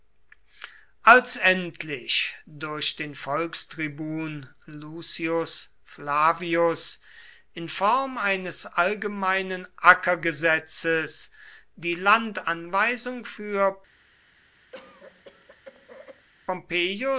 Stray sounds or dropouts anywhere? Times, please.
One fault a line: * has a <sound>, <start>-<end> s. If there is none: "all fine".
* has a cough, 14.7-16.3 s